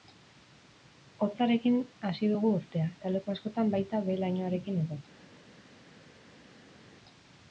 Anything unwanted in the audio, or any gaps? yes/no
no